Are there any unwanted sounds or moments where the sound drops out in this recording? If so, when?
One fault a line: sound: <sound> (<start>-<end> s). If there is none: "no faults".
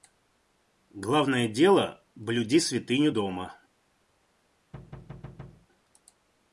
sound: thud (4.7-5.7 s)